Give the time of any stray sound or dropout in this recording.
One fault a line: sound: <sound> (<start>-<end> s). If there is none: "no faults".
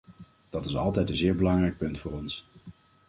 no faults